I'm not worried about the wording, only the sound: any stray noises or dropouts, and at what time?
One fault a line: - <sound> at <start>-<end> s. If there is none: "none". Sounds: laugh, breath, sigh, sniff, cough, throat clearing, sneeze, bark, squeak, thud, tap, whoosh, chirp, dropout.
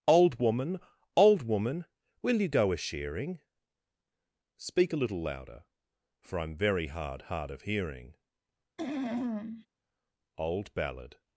- throat clearing at 8.8-9.7 s